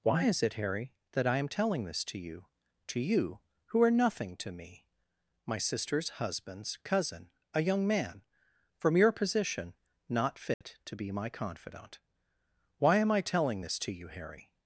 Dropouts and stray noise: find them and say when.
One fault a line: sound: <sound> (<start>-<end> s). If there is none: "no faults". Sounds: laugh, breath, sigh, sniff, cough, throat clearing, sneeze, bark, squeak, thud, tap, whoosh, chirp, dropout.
sound: dropout (10.5-10.6 s)